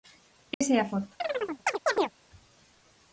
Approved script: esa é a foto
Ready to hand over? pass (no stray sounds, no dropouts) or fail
fail